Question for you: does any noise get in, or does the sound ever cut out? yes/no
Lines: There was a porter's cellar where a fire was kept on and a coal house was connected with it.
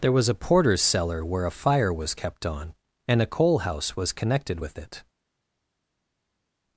no